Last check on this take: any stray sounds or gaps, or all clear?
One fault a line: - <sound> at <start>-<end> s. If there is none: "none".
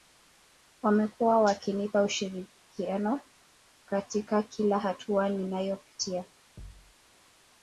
- thud at 6.6-6.9 s